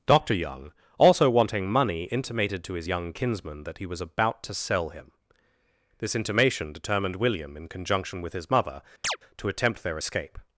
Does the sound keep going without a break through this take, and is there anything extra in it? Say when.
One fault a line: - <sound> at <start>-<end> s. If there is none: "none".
- chirp at 9.0-9.2 s